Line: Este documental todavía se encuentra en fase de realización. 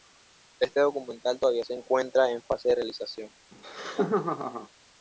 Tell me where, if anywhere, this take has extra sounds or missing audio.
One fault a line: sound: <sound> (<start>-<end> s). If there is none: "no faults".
sound: laugh (3.5-4.7 s)